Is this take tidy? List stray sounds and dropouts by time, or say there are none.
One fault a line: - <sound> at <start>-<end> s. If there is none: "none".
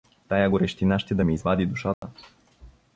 - dropout at 1.9-2.0 s